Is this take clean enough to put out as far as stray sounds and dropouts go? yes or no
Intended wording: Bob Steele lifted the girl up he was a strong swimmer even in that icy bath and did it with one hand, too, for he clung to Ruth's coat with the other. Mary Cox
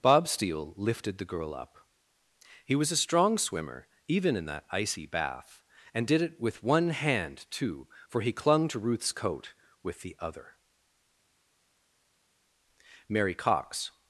yes